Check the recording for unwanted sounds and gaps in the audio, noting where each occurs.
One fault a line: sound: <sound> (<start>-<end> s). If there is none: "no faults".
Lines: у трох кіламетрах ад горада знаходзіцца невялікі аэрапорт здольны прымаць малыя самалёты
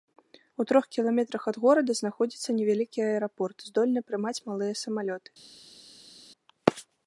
no faults